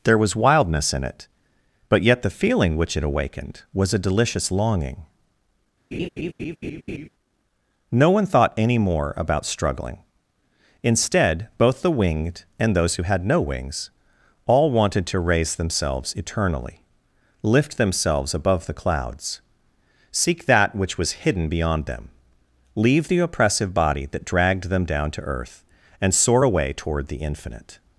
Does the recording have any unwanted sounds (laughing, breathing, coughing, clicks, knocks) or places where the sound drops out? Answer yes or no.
yes